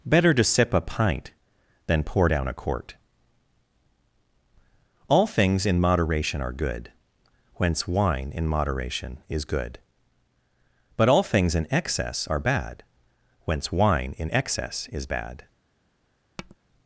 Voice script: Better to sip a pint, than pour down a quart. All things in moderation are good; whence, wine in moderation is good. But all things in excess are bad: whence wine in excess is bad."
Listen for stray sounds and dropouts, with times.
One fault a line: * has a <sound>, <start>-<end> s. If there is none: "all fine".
* has a tap, 16.4-16.6 s